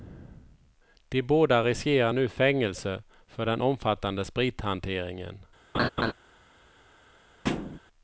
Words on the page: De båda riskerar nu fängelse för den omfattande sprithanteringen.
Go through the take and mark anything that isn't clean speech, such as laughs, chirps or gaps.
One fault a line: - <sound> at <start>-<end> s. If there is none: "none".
- laugh at 5.7-6.1 s
- thud at 7.4-7.8 s